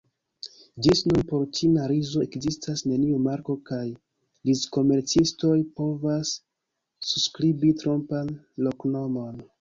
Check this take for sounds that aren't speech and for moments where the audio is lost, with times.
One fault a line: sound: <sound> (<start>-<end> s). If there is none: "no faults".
no faults